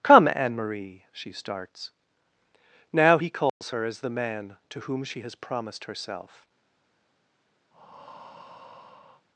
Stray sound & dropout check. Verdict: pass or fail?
fail